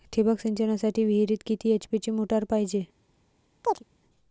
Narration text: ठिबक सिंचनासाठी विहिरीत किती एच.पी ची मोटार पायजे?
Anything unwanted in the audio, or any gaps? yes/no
yes